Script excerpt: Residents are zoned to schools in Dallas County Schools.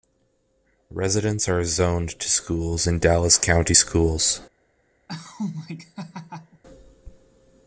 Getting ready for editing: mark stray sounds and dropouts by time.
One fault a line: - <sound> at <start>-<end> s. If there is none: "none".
- laugh at 5.1-6.6 s